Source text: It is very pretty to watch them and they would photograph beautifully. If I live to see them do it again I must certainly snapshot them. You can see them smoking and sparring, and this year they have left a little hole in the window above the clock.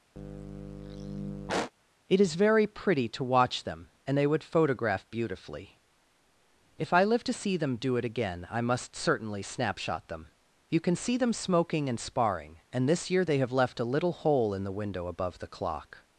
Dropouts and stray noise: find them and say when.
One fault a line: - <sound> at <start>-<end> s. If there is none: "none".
- sigh at 0.2-1.7 s